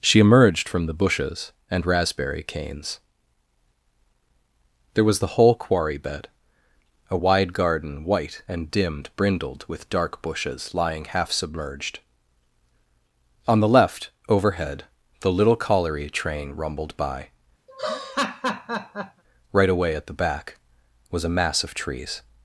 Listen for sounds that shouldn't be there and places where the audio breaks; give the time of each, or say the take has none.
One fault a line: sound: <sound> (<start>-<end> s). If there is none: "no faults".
sound: laugh (17.7-19.2 s)